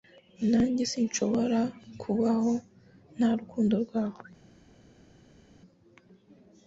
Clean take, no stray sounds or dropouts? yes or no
yes